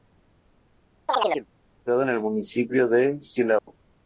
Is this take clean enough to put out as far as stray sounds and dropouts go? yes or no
no